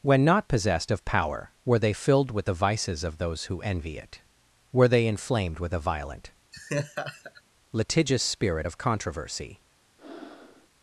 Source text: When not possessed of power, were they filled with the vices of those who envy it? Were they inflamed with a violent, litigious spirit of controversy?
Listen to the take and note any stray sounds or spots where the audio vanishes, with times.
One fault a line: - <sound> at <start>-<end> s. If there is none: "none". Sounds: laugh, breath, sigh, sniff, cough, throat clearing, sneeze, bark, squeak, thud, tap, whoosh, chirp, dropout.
- laugh at 6.5-7.4 s
- breath at 10.0-10.7 s